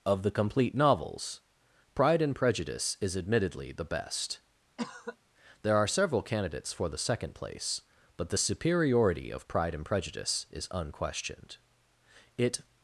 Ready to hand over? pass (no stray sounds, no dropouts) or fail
fail